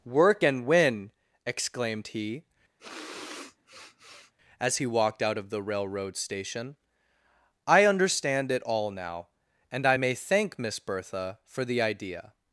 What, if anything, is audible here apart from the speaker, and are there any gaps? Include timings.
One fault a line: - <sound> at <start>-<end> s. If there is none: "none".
- sniff at 2.8-4.3 s